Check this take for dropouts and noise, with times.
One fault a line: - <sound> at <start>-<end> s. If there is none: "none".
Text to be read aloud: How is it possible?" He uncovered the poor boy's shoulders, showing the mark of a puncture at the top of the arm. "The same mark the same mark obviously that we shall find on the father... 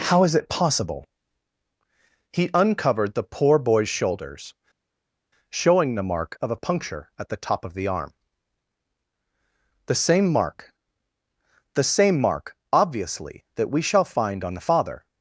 none